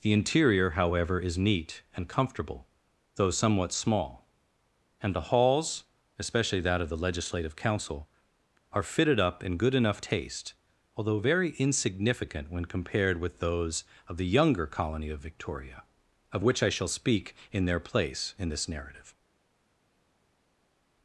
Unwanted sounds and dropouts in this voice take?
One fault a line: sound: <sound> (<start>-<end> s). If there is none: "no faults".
no faults